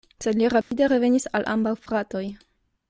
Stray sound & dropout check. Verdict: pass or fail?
fail